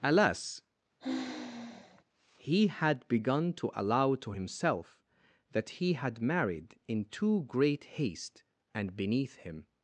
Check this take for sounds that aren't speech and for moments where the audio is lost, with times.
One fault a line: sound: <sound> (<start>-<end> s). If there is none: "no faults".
sound: sigh (1.0-2.0 s)